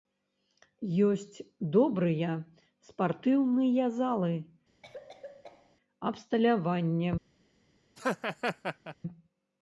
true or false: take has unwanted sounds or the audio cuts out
true